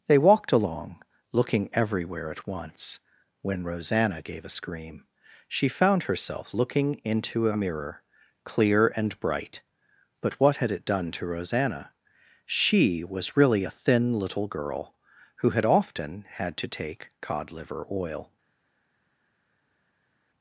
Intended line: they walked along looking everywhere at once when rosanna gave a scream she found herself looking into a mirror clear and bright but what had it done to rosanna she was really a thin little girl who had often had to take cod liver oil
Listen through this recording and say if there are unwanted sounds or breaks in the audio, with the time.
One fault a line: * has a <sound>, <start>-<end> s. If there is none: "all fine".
all fine